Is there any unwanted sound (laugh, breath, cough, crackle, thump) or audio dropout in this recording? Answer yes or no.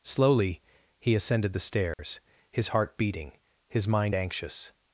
yes